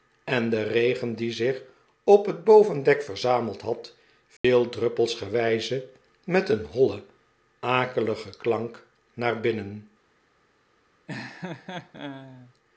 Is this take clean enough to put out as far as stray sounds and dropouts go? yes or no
no